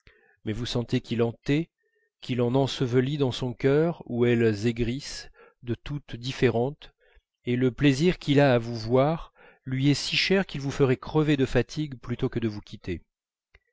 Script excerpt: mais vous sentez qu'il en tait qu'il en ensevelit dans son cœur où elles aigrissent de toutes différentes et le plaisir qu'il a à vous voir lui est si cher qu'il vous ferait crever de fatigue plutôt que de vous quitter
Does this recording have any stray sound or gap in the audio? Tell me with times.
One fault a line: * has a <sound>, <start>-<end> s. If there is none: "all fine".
all fine